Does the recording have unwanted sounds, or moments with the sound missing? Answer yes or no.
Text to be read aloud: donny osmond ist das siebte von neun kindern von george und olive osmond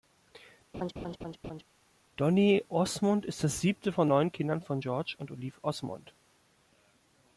yes